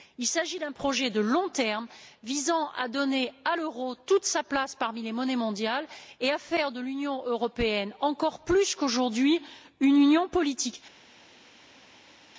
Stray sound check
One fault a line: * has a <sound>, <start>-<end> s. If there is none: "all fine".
all fine